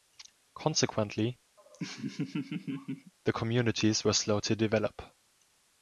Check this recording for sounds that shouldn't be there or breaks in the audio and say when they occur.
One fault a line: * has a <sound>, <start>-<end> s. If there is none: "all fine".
* has a laugh, 1.6-3.1 s